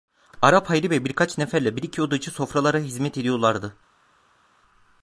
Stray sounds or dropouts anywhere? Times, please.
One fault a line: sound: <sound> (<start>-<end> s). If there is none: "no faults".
no faults